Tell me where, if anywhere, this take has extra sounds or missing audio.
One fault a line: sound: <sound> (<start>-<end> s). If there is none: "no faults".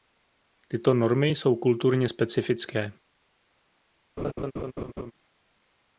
sound: laugh (4.2-5.1 s)